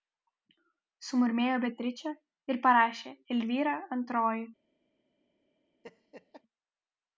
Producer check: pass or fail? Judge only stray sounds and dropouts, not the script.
fail